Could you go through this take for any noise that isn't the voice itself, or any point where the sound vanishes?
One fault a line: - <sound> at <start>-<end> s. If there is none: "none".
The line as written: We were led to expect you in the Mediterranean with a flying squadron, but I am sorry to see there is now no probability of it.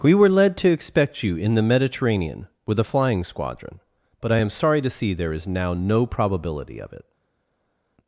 none